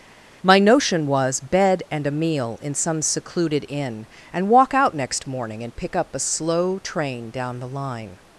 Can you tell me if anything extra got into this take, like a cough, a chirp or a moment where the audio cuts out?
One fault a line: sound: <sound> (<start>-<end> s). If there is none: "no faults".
no faults